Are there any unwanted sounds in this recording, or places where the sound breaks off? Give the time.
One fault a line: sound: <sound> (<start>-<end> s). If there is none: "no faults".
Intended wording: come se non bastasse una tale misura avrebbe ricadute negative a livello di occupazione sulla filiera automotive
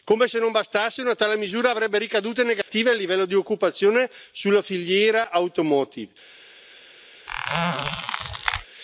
sound: dropout (2.6-2.7 s)
sound: squeak (7.3-8.7 s)